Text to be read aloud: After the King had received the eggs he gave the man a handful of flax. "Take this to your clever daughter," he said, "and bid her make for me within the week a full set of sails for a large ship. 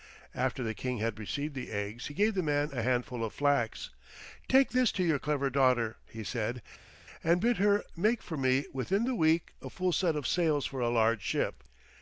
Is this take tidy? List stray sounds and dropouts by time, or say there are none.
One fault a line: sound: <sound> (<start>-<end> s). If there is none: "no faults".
no faults